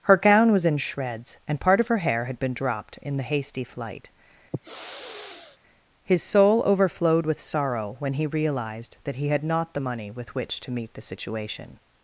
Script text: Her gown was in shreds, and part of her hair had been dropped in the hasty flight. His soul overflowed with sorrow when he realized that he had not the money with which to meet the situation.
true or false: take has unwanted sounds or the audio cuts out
true